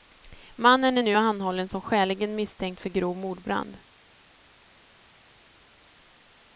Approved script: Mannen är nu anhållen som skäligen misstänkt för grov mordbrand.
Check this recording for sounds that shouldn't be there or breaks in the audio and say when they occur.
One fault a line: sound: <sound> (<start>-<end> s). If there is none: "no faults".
no faults